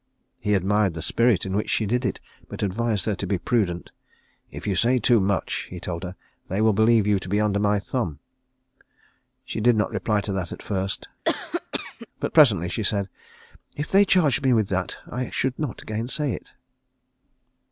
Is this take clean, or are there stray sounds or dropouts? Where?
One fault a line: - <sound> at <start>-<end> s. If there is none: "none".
- cough at 11.2-12.1 s